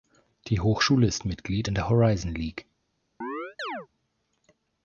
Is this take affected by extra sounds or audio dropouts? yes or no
yes